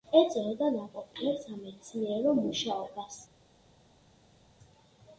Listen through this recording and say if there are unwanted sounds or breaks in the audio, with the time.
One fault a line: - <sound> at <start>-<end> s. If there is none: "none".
none